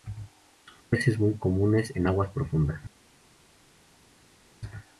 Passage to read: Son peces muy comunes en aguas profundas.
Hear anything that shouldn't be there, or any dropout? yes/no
no